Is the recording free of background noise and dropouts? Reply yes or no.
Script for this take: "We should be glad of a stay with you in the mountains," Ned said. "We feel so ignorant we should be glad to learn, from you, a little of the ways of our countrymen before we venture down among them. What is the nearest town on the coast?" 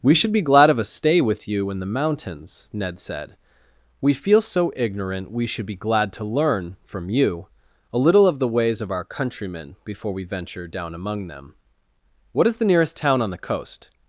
yes